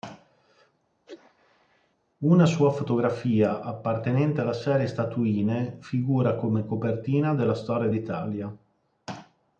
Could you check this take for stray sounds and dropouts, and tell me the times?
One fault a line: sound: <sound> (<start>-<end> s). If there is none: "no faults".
sound: sneeze (1.1-2.0 s)